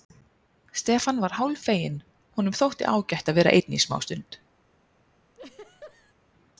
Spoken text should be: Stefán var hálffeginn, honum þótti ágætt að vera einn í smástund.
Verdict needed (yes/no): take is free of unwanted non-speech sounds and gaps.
no